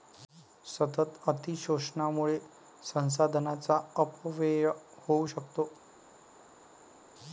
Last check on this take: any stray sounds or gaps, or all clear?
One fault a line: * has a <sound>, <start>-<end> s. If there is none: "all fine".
all fine